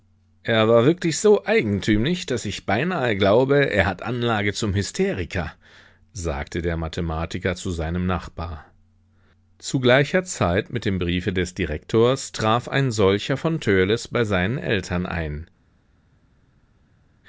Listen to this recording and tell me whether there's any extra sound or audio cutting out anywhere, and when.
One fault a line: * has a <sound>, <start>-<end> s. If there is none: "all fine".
all fine